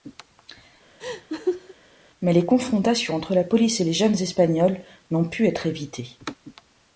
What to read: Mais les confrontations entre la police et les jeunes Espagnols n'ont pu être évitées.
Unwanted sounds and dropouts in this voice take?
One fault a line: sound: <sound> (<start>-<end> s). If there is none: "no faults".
sound: laugh (1.0-1.7 s)